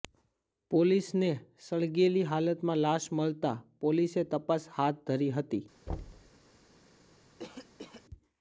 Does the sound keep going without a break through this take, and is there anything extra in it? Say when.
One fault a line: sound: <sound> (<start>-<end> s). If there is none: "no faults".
sound: thud (5.9-6.3 s)
sound: cough (7.4-8.1 s)